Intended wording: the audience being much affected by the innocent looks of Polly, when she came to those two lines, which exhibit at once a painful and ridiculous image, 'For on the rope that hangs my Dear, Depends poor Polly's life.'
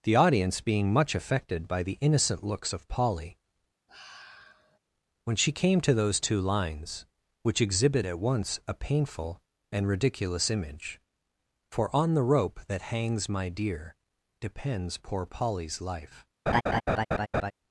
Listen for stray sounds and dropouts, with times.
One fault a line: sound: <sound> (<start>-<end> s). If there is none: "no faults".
sound: sigh (3.9-4.8 s)
sound: laugh (16.5-17.5 s)